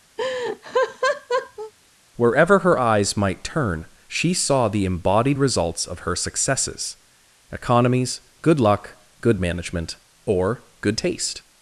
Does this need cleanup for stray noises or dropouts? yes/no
yes